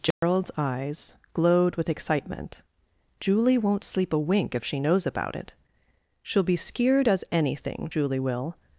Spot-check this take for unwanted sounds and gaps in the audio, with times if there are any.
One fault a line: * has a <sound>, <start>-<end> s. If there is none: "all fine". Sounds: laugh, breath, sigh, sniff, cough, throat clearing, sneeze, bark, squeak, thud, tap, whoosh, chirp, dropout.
* has a dropout, 0.1-0.2 s